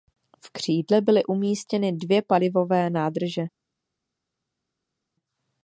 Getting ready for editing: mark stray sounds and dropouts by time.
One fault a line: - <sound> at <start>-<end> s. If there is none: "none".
none